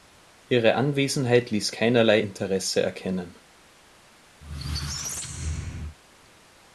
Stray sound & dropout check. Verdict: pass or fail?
fail